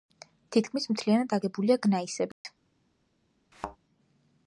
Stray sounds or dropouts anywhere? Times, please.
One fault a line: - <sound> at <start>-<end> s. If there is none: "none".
- dropout at 2.3-2.4 s
- thud at 3.5-3.8 s